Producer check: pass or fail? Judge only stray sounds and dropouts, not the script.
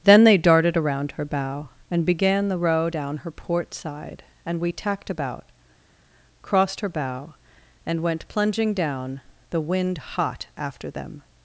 pass